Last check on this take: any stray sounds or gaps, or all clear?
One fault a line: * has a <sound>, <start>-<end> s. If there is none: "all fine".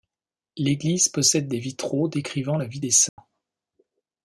* has a dropout, 3.1-3.2 s